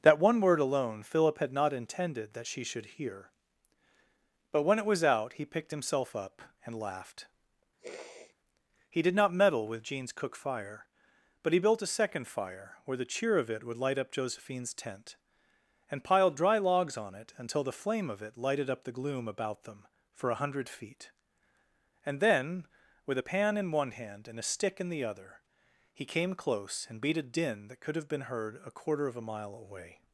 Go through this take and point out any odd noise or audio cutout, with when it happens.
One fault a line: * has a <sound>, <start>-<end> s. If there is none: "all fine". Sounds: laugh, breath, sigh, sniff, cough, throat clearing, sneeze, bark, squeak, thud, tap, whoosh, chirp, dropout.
* has a sniff, 7.8-8.4 s